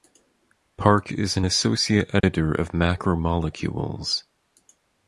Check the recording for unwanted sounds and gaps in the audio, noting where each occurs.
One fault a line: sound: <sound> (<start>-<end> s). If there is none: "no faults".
sound: dropout (2.2-2.2 s)